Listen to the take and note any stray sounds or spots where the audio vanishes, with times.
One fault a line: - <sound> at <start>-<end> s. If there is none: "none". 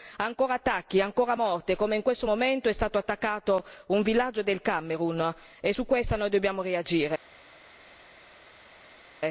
none